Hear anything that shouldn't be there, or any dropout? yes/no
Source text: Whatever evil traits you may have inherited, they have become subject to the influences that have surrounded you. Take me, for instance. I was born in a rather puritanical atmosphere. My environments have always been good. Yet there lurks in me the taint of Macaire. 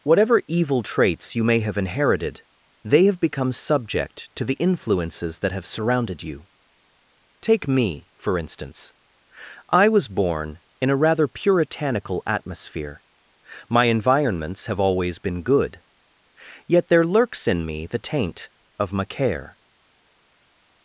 no